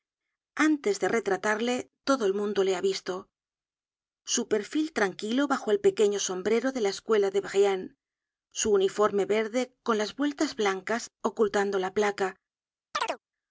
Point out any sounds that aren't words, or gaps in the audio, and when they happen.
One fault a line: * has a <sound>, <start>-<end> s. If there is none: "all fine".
* has a chirp, 12.9-13.2 s